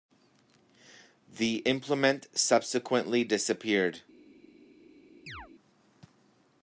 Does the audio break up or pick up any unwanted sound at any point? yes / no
yes